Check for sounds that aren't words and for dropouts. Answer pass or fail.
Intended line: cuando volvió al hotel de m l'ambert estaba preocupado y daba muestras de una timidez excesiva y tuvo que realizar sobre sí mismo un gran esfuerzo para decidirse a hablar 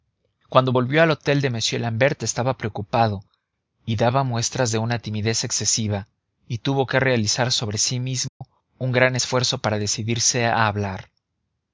fail